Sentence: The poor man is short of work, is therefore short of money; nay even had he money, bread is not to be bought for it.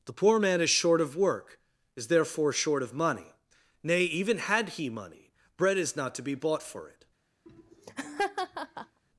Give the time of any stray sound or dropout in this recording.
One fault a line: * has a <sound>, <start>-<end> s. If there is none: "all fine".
* has a laugh, 7.5-9.0 s